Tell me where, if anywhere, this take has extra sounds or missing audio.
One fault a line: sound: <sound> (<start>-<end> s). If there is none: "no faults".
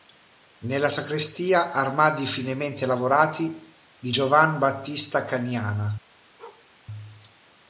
sound: bark (6.4-6.7 s)